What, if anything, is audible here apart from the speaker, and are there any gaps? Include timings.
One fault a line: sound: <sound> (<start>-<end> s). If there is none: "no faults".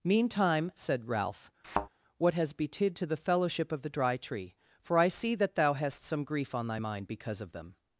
sound: thud (1.6-1.9 s)